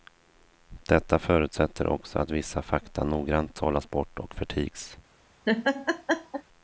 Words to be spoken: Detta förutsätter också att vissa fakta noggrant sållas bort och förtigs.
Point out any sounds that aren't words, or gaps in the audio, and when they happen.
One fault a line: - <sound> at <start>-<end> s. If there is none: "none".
- laugh at 5.5-6.4 s